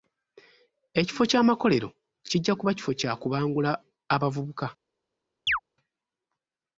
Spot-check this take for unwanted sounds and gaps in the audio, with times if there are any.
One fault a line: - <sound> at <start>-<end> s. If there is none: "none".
- chirp at 5.5-5.6 s